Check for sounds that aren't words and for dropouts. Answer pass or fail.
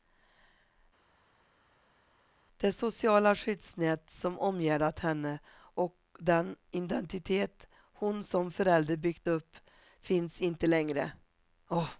pass